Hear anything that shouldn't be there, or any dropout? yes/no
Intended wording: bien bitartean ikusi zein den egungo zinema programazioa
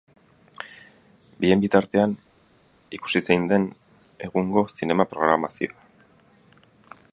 no